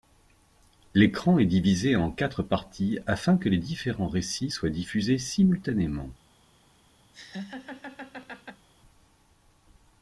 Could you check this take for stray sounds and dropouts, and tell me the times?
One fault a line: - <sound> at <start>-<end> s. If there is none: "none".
- laugh at 7.1-8.7 s